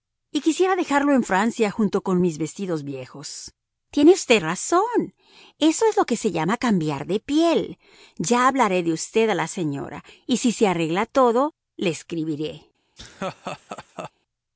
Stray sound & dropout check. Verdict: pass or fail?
fail